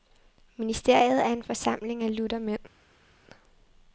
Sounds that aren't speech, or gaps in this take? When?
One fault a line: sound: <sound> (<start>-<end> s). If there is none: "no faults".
no faults